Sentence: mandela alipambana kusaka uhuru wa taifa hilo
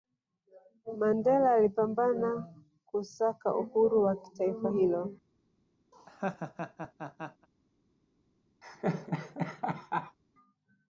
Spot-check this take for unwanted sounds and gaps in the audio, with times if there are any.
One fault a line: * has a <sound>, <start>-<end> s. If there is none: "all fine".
* has a laugh, 5.9-7.5 s
* has a laugh, 8.6-10.2 s